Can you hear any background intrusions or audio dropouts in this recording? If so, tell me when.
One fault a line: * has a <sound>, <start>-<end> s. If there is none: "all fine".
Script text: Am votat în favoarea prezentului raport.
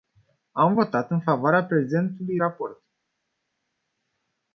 all fine